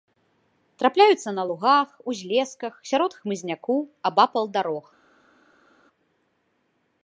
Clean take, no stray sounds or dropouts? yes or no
yes